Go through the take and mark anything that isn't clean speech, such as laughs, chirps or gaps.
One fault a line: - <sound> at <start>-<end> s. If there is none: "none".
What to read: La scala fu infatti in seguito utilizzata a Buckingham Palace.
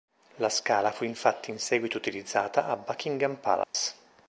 - dropout at 3.6-3.7 s